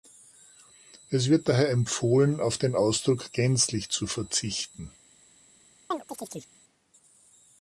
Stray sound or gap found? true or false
true